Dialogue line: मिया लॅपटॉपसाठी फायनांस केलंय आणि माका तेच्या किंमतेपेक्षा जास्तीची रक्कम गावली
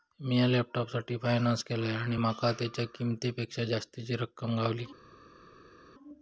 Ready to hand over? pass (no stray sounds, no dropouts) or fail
pass